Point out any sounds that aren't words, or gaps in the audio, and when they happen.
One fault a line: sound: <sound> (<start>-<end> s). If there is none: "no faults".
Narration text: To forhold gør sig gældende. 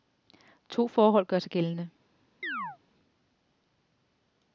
sound: chirp (2.4-2.8 s)